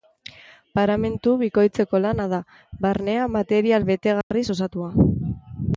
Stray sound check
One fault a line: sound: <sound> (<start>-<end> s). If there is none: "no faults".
sound: dropout (4.2-4.3 s)